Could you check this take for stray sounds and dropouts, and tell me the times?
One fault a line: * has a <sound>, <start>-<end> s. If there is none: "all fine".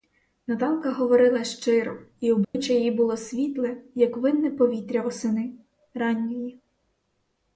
* has a dropout, 2.4-2.5 s